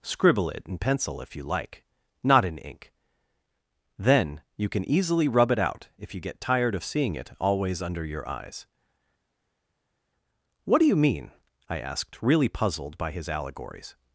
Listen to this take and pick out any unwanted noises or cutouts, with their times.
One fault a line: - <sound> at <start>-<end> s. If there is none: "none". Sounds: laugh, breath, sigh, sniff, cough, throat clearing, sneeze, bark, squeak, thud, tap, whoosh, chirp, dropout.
none